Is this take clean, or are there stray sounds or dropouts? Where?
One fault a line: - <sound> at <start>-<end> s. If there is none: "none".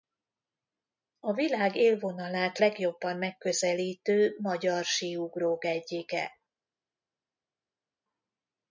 none